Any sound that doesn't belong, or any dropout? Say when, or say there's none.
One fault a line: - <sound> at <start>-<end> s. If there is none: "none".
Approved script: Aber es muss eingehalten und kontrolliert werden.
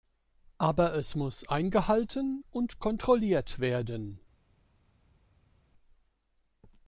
none